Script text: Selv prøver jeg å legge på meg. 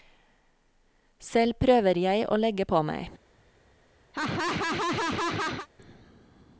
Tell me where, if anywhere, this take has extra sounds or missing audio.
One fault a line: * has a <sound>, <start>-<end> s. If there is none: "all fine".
* has a laugh, 4.1-5.7 s